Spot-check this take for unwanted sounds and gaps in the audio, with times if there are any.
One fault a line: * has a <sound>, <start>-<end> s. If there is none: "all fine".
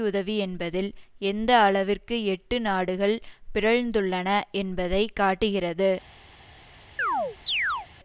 * has a chirp, 7.0-7.9 s